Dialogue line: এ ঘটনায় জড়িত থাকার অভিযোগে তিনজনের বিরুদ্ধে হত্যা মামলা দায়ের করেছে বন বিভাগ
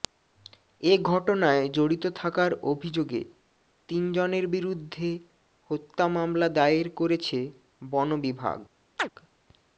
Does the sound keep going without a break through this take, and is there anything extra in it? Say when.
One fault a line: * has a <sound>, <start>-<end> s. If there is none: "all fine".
* has a chirp, 9.0-9.1 s